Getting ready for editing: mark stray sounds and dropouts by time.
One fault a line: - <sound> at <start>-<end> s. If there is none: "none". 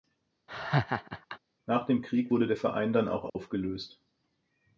- laugh at 0.5-1.4 s
- dropout at 3.3-3.4 s